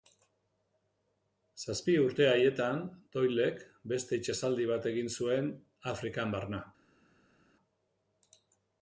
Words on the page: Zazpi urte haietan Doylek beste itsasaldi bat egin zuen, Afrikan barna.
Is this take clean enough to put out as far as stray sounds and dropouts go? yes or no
yes